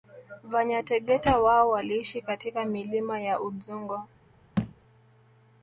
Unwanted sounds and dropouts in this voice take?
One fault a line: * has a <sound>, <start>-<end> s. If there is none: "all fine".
* has a thud, 4.6-4.7 s